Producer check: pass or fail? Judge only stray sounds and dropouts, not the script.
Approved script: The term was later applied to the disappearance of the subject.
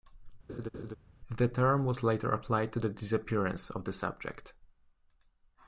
fail